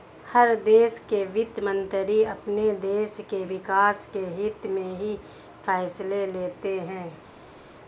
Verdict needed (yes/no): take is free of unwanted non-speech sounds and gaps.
yes